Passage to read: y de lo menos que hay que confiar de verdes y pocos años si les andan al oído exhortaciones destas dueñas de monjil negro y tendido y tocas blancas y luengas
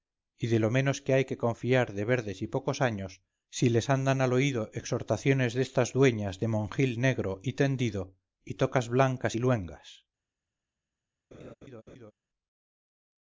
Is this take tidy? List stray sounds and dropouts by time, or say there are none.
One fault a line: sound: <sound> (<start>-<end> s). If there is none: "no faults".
sound: laugh (11.3-12.1 s)